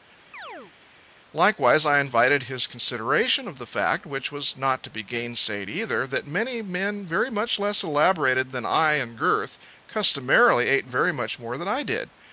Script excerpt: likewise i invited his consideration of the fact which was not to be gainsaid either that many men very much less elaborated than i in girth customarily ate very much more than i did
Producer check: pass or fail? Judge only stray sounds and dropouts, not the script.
fail